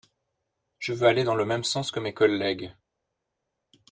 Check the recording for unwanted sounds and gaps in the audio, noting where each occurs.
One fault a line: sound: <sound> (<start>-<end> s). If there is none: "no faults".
no faults